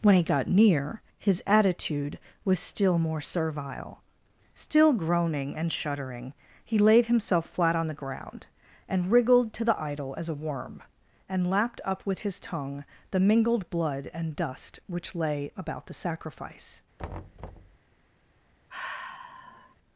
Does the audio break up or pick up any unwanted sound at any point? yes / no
yes